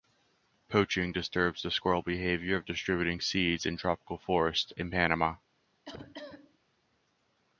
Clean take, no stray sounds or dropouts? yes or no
no